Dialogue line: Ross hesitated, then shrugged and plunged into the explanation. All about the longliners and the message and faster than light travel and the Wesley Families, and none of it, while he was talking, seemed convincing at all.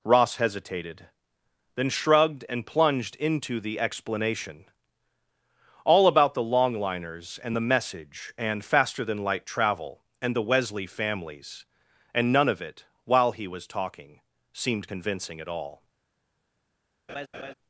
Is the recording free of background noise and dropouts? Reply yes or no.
no